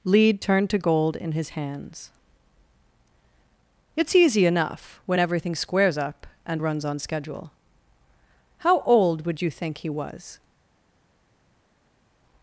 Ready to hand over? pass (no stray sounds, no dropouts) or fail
pass